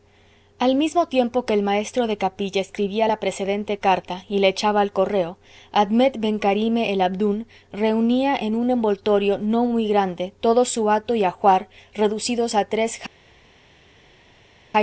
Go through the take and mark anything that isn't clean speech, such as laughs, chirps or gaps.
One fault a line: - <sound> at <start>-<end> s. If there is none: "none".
none